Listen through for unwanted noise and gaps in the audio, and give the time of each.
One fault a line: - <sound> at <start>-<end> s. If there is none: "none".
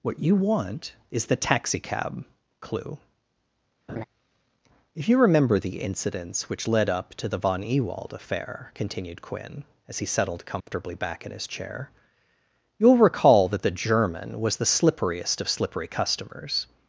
- laugh at 3.9-4.0 s
- dropout at 10.6-10.7 s